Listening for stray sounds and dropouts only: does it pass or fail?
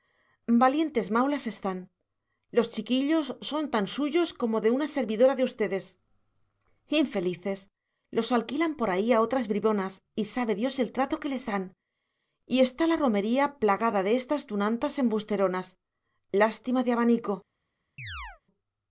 fail